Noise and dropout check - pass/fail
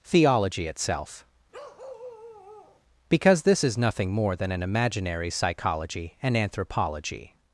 fail